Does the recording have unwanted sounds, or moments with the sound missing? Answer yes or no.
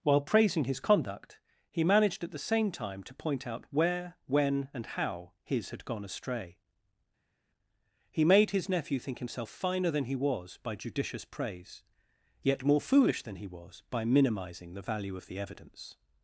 no